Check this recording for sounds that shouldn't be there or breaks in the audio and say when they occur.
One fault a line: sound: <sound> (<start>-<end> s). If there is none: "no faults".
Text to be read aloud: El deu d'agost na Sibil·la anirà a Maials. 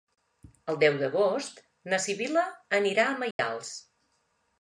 sound: dropout (3.3-3.4 s)